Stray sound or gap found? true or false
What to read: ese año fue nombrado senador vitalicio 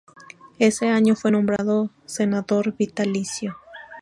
true